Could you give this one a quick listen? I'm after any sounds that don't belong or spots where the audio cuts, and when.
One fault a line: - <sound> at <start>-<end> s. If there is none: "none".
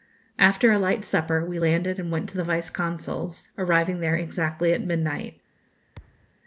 - thud at 6.0-6.3 s